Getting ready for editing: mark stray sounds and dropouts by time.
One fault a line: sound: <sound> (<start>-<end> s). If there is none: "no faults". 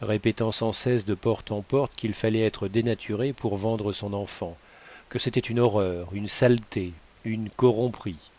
no faults